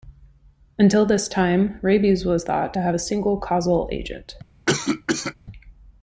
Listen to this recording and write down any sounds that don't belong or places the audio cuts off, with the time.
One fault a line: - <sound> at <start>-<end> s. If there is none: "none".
- cough at 4.7-5.3 s